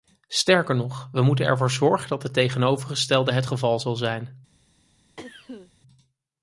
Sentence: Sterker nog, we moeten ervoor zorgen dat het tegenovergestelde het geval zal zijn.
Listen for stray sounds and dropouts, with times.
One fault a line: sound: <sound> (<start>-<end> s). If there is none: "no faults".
sound: cough (5.2-5.7 s)